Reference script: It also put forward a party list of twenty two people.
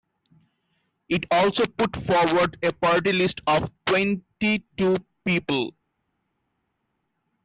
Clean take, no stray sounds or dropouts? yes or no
yes